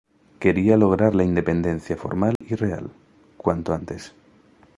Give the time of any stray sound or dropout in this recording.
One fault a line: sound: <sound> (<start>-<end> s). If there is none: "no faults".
sound: dropout (2.4-2.4 s)